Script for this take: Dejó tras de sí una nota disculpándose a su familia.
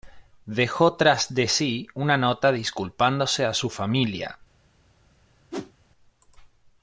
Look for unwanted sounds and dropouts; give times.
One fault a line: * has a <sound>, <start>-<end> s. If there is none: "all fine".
* has a whoosh, 5.5-5.7 s